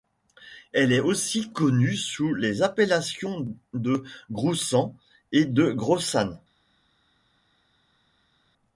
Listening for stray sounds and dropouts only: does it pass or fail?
pass